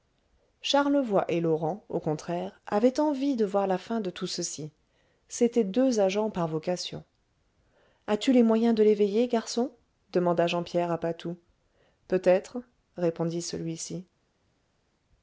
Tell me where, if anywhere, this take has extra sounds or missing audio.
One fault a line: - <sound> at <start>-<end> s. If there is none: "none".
none